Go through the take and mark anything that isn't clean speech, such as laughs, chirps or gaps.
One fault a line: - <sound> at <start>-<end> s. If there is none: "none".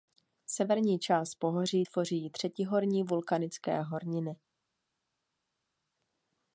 none